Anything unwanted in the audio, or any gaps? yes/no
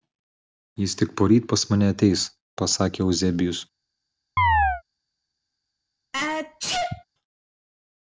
yes